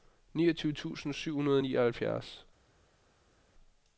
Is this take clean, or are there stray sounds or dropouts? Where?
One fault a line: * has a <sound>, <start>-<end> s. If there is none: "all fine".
all fine